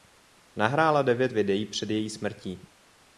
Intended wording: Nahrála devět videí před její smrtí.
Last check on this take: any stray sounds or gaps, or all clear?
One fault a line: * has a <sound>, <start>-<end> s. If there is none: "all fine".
all fine